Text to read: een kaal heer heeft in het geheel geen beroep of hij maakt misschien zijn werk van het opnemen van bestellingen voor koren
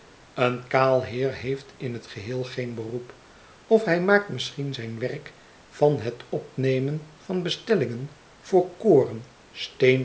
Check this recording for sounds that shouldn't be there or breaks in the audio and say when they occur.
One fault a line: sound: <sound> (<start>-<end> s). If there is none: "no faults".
no faults